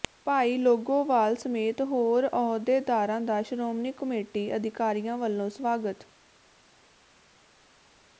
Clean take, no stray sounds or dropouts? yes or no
yes